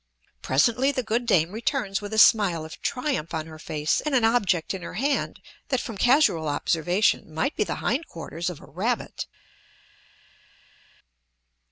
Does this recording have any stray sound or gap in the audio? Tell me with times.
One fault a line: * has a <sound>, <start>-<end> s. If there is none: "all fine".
all fine